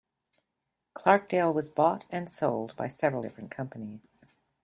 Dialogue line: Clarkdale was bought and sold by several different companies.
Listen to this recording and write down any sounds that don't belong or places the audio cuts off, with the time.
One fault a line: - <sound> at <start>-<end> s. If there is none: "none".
none